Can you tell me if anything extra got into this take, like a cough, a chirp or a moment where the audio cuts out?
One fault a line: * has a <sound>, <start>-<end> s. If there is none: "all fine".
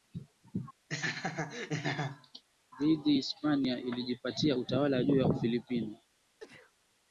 * has a laugh, 0.9-2.4 s
* has a sneeze, 6.4-6.7 s